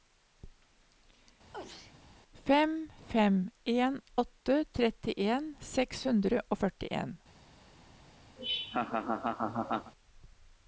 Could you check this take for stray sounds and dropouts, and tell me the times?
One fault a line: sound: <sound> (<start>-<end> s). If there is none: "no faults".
sound: sneeze (1.5-1.9 s)
sound: laugh (8.4-9.9 s)